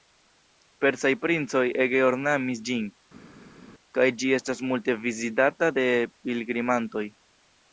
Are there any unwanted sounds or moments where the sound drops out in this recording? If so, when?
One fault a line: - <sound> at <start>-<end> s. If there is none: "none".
none